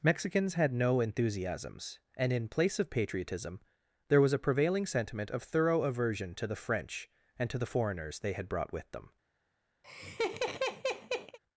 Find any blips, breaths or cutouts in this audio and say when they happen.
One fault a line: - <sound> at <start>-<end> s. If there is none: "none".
- laugh at 9.8-11.4 s